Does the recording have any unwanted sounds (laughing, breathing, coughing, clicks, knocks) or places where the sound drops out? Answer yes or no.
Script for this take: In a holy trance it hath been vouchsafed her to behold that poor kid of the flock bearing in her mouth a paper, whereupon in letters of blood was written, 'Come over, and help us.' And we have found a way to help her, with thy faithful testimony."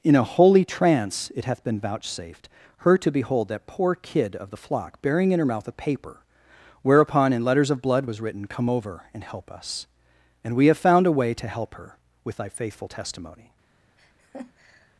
yes